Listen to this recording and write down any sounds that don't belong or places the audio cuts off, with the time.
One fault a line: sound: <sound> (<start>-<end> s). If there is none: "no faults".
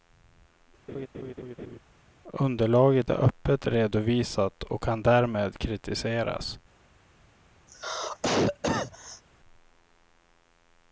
sound: laugh (0.9-1.8 s)
sound: cough (7.7-9.2 s)